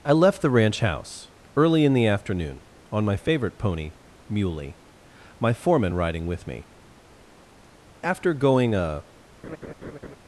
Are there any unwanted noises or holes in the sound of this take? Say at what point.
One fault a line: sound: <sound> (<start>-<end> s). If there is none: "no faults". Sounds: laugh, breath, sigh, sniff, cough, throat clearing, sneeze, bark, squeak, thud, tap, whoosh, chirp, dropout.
sound: laugh (9.4-10.2 s)